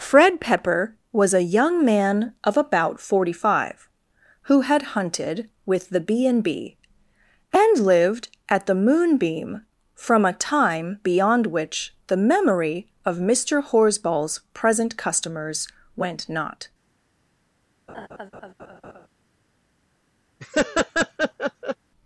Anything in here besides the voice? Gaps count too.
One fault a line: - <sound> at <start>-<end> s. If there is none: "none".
- laugh at 17.9-19.1 s
- laugh at 20.4-21.8 s